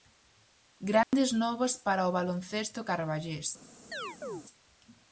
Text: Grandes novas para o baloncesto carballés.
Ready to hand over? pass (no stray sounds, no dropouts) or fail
fail